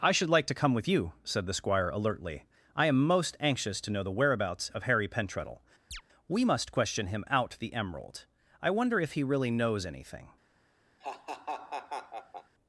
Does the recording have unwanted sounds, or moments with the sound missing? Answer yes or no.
yes